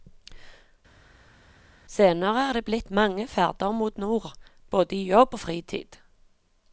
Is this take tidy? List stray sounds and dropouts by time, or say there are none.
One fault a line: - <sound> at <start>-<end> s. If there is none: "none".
none